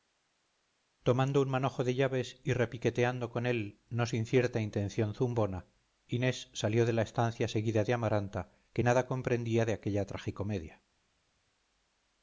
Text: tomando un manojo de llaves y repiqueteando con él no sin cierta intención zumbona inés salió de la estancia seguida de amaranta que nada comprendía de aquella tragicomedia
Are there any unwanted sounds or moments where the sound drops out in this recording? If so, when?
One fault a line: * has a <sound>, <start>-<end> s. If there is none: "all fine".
all fine